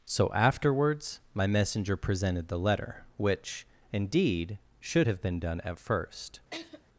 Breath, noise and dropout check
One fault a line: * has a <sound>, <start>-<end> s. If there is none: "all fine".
* has a laugh, 6.5-6.8 s